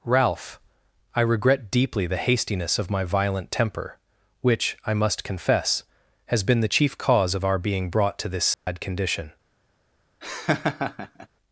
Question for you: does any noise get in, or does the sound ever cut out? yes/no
yes